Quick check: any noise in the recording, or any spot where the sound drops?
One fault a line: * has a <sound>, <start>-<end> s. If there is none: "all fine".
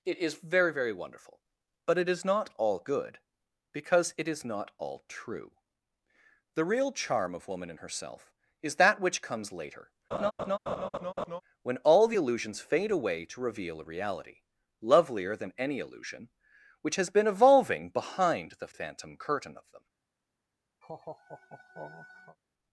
* has a laugh, 10.1-11.4 s
* has a laugh, 20.8-22.4 s